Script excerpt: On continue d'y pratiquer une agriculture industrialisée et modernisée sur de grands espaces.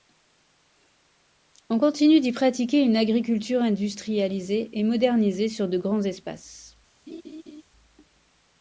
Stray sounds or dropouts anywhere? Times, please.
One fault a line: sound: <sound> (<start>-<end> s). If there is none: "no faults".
sound: laugh (7.1-7.6 s)